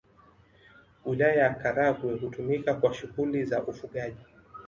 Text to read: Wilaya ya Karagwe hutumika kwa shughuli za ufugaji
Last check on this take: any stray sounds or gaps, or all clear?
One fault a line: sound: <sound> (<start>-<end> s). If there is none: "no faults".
no faults